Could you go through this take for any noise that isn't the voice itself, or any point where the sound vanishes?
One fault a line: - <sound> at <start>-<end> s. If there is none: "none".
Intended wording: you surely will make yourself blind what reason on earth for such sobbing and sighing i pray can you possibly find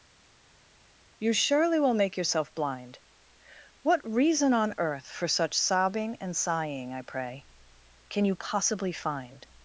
none